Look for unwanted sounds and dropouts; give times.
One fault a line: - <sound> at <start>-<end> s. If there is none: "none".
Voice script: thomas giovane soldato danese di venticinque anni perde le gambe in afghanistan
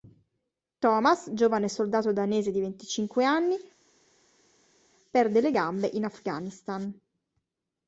none